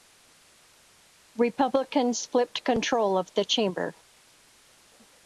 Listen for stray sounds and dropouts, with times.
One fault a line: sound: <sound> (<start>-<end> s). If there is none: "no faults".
no faults